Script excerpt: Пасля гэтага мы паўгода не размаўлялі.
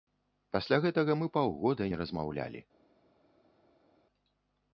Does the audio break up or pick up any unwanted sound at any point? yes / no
no